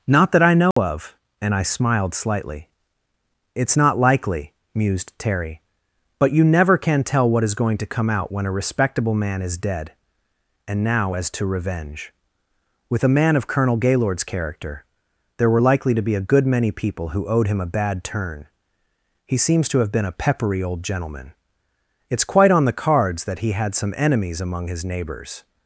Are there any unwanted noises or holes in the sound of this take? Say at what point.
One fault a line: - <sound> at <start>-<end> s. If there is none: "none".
- dropout at 0.7-0.8 s